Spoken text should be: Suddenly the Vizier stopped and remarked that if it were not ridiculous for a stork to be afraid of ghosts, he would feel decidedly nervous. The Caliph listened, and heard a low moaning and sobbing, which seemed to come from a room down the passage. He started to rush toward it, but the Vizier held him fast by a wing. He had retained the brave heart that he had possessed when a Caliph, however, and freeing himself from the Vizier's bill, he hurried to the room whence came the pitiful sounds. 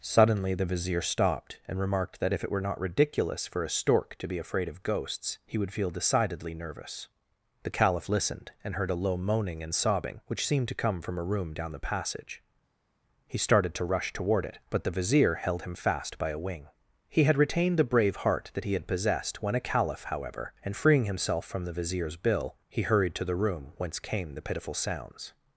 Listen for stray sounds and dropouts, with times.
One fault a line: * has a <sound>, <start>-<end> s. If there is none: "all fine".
all fine